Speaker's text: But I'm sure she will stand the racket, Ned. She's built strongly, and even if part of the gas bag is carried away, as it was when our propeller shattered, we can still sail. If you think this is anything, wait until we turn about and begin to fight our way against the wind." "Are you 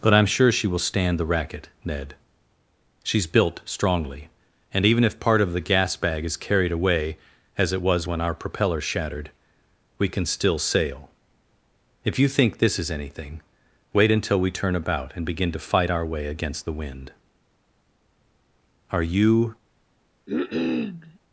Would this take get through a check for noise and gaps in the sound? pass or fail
fail